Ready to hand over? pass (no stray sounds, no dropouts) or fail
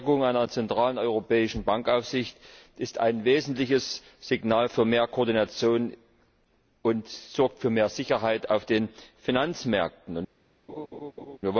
fail